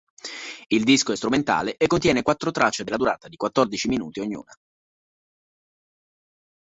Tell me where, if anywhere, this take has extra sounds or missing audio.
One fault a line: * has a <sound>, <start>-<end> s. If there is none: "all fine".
all fine